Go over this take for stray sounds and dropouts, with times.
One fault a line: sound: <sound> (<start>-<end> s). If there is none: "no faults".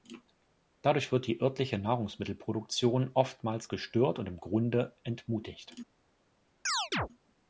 sound: chirp (6.7-7.1 s)